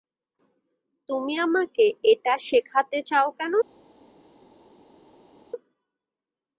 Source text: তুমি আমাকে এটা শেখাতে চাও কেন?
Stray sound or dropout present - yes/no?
no